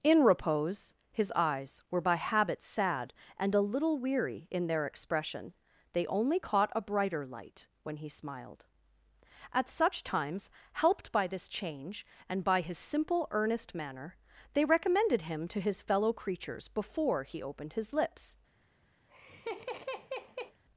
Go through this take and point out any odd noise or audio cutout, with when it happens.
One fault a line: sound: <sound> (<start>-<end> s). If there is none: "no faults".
sound: laugh (19.0-20.6 s)